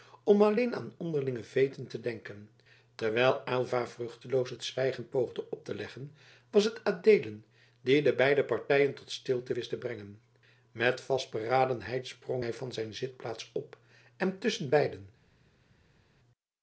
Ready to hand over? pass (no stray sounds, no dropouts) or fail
pass